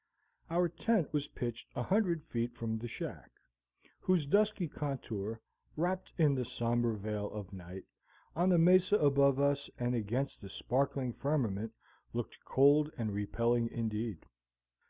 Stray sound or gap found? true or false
false